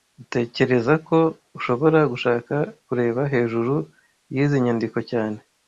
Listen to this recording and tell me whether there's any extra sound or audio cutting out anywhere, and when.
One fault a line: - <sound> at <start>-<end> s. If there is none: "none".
none